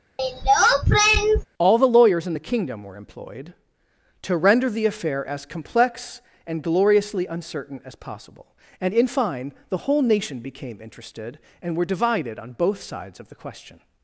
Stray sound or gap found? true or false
true